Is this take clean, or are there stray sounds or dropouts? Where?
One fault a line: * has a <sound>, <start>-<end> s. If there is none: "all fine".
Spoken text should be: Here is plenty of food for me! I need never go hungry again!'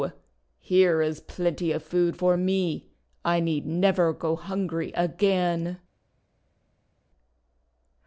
all fine